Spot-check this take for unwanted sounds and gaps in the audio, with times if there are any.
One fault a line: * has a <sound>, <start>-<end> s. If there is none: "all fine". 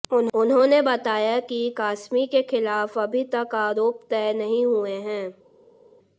all fine